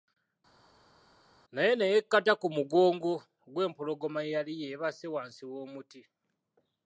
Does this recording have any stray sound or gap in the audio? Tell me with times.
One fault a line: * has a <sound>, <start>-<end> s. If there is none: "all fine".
all fine